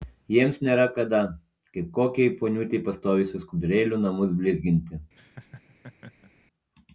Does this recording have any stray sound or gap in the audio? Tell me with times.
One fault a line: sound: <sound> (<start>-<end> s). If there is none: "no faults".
sound: laugh (5.1-6.3 s)